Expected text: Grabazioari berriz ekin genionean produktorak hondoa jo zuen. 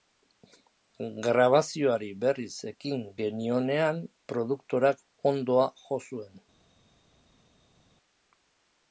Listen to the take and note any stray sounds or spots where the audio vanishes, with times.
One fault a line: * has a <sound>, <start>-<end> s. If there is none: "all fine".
all fine